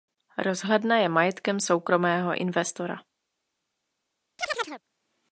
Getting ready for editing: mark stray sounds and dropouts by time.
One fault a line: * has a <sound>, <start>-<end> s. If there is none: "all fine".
* has a chirp, 4.4-4.8 s